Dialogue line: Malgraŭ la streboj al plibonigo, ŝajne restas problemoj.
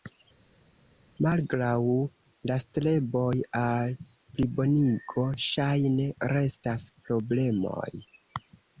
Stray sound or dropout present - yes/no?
no